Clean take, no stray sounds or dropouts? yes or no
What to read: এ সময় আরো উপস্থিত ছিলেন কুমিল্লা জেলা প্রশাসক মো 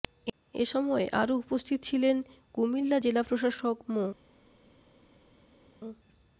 yes